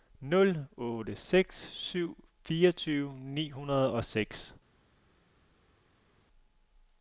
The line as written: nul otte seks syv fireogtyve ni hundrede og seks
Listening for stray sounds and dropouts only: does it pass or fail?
pass